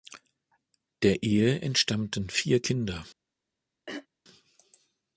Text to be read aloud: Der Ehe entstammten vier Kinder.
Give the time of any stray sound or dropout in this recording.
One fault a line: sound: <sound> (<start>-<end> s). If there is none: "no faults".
sound: throat clearing (3.9-4.1 s)